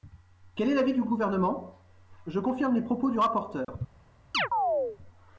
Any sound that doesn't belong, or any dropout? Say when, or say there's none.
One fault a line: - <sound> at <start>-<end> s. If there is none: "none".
- dropout at 3.6-3.7 s
- chirp at 4.3-5.0 s